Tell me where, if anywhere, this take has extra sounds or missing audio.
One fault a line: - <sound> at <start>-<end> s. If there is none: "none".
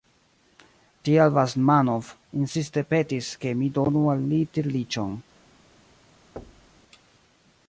- thud at 6.4-6.8 s